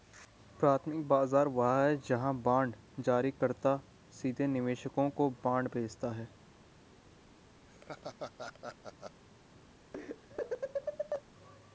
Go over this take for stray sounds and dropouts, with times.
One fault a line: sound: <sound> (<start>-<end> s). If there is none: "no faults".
sound: laugh (7.7-9.2 s)
sound: laugh (9.9-11.2 s)